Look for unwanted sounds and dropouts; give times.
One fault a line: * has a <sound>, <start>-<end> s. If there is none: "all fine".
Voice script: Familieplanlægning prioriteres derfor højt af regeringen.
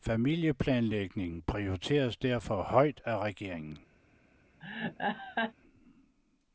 * has a laugh, 4.6-5.5 s